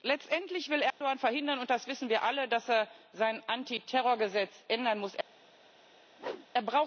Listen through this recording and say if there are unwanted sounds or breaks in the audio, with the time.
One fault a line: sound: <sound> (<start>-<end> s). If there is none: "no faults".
sound: dropout (0.9-1.0 s)
sound: whoosh (6.2-6.5 s)